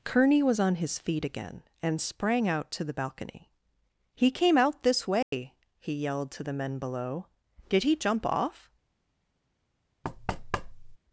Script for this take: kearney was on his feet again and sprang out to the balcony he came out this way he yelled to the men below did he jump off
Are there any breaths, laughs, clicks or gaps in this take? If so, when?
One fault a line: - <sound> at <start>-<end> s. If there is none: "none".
- dropout at 5.2-5.3 s
- thud at 10.0-11.0 s